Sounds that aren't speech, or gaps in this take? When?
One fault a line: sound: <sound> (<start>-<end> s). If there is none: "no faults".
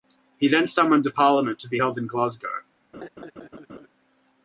sound: laugh (2.9-3.9 s)